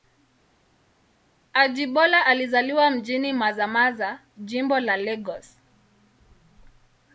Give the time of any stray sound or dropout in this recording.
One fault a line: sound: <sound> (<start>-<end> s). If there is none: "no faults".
no faults